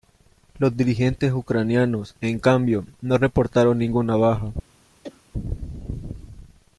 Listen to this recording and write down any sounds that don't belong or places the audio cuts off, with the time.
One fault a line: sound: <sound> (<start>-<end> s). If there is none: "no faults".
sound: cough (5.0-5.2 s)